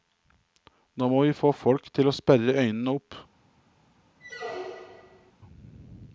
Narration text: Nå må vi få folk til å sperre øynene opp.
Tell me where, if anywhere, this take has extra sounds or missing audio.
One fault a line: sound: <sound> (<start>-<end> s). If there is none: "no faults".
sound: squeak (4.2-5.3 s)